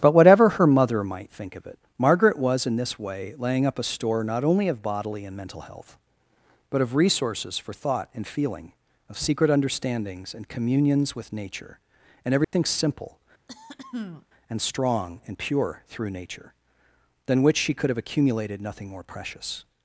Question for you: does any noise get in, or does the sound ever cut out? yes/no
yes